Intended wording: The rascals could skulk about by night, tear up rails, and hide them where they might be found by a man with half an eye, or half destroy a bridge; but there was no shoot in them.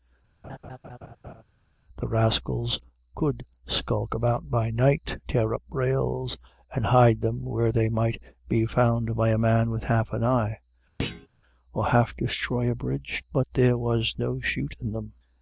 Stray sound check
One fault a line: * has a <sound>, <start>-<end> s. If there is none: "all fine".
* has a laugh, 0.4-1.4 s
* has a thud, 11.0-11.3 s